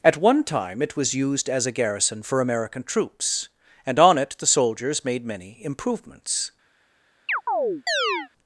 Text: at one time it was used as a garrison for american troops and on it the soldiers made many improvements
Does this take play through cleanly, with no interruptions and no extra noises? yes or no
no